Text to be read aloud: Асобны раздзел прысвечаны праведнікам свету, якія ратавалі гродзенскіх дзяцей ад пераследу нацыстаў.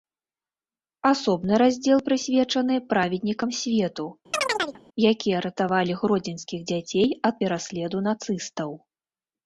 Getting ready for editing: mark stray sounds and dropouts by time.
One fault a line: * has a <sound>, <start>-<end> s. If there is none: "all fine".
* has a chirp, 4.3-4.8 s